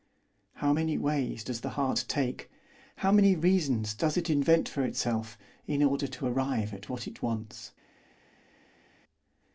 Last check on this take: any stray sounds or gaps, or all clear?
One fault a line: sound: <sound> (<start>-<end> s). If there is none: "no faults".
no faults